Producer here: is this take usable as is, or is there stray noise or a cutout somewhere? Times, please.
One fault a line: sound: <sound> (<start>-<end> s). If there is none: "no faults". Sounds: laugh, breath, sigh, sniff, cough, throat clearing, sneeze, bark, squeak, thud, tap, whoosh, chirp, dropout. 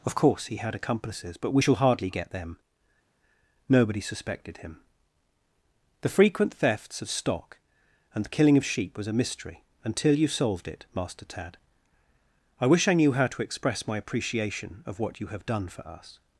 no faults